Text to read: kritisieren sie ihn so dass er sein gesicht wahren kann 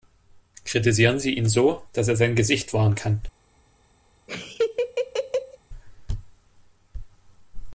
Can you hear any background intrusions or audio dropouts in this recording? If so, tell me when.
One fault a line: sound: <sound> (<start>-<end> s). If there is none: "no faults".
sound: laugh (4.3-5.6 s)